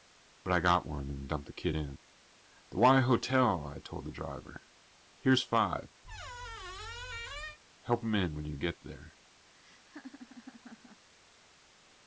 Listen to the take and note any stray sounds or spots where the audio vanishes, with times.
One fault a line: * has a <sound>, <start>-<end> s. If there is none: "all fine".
* has a squeak, 6.0-7.6 s
* has a laugh, 9.5-11.1 s